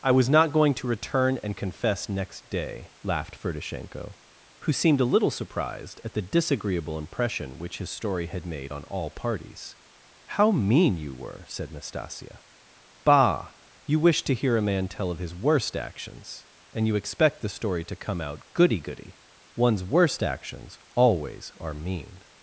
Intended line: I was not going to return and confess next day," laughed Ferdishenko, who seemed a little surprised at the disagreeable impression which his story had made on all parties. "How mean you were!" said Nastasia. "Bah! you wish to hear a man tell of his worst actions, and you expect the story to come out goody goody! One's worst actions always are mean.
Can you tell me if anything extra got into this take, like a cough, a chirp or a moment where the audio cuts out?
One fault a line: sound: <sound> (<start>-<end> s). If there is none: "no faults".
no faults